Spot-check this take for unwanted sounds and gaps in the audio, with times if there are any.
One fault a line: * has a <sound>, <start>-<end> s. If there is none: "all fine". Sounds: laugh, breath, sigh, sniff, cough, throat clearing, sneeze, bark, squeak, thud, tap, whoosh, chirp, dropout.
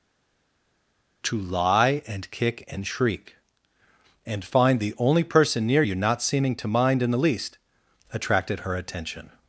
all fine